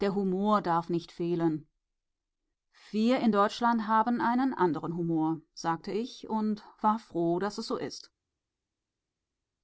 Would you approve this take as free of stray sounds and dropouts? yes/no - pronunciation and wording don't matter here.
yes